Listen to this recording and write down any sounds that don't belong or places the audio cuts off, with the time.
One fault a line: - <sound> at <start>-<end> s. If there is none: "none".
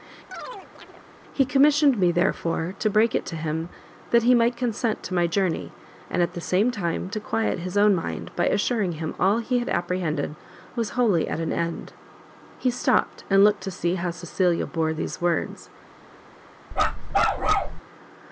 - chirp at 0.3-1.1 s
- bark at 16.7-17.8 s